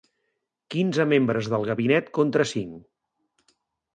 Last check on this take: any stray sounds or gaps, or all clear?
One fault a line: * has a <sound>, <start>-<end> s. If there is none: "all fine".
all fine